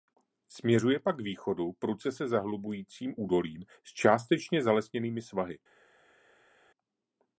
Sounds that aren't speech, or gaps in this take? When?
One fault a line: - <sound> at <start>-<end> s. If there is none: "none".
none